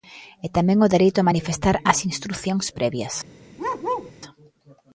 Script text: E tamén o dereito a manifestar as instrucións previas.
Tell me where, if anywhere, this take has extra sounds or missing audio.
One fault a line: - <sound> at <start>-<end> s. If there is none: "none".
- bark at 3.6-4.1 s